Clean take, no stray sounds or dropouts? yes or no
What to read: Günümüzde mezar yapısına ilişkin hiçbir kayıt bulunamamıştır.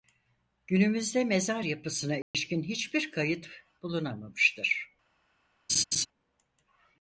no